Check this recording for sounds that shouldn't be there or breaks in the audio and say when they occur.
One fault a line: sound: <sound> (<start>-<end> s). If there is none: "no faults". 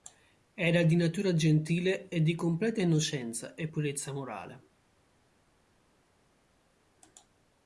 no faults